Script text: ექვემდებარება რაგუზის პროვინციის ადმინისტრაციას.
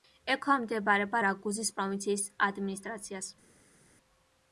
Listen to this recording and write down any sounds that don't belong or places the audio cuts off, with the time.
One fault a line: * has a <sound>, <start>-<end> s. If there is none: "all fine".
all fine